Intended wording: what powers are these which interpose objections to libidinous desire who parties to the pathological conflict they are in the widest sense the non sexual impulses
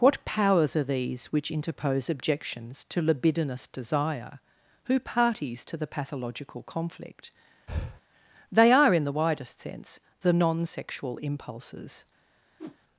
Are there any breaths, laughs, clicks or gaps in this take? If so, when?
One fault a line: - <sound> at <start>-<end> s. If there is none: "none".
- breath at 7.7-8.0 s
- whoosh at 12.6-12.8 s